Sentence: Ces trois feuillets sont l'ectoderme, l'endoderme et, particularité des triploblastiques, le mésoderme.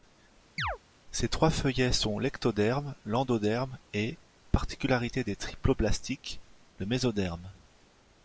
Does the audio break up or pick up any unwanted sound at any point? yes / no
yes